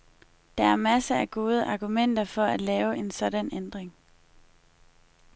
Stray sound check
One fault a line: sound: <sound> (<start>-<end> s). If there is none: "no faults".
no faults